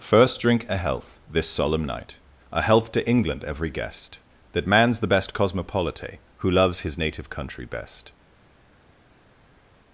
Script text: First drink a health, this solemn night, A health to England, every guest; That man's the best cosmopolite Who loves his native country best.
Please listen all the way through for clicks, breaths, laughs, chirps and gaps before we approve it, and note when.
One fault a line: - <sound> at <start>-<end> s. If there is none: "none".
none